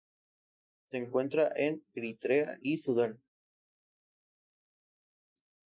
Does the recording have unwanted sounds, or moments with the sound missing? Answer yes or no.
no